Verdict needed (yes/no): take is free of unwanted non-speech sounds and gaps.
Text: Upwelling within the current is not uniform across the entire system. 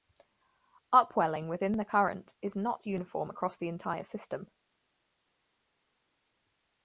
yes